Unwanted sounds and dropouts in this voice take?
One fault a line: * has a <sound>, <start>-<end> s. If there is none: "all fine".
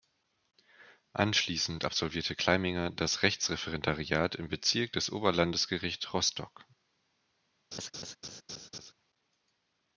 * has a laugh, 7.7-8.9 s